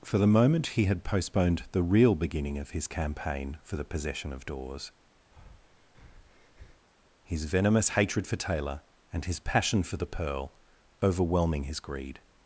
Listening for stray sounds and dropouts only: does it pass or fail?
fail